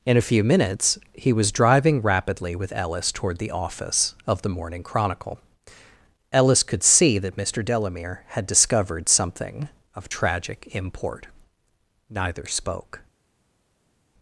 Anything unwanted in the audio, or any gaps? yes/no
no